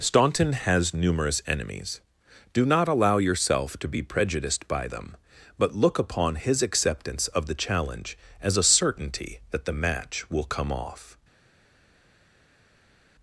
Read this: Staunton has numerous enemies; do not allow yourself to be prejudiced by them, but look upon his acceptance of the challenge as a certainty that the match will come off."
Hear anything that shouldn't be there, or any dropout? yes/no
no